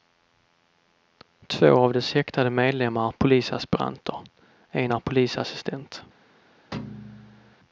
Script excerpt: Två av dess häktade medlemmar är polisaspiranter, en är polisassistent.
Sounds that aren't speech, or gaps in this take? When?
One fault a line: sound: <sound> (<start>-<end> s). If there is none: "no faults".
sound: thud (6.7-7.6 s)